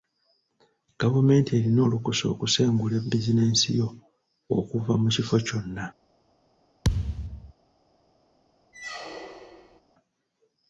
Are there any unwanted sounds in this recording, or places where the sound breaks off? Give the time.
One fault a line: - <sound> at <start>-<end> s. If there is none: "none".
- thud at 6.8-7.5 s
- squeak at 8.7-9.8 s